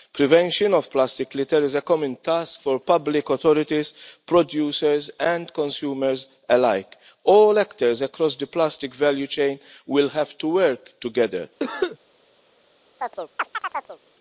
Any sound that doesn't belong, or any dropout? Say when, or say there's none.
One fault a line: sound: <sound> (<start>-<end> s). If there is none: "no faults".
sound: cough (11.6-12.0 s)
sound: chirp (13.0-14.0 s)